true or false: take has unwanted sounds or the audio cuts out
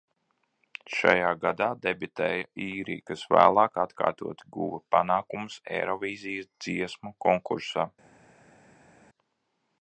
false